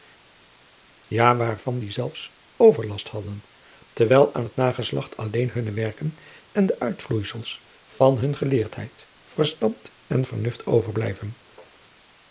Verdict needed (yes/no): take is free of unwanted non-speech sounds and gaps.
yes